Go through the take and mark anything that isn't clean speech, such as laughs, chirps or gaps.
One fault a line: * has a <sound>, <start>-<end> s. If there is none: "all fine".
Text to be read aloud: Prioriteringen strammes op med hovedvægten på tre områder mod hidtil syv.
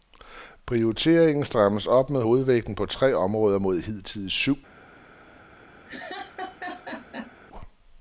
* has a laugh, 5.9-7.3 s